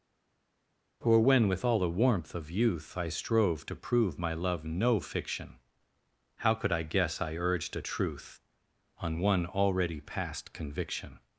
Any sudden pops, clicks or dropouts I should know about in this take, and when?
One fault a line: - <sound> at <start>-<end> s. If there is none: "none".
none